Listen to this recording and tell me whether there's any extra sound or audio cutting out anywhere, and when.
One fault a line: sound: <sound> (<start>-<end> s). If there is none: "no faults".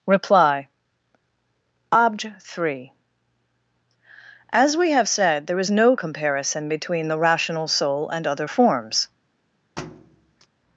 sound: thud (9.8-10.5 s)